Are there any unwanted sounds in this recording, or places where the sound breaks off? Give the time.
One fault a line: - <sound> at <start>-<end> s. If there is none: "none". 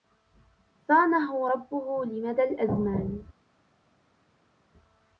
none